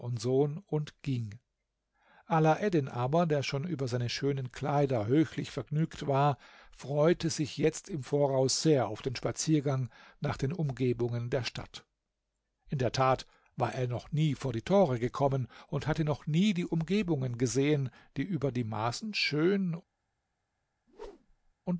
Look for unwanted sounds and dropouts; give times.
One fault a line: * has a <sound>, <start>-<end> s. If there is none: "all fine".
* has a whoosh, 20.9-21.5 s